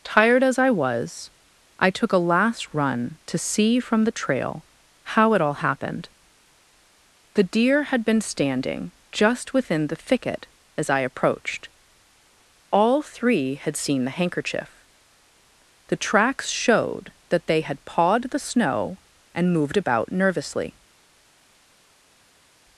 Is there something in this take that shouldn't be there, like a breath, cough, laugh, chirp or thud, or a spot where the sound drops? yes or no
no